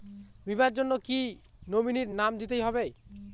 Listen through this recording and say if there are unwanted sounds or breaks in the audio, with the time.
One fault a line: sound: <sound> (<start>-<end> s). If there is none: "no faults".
no faults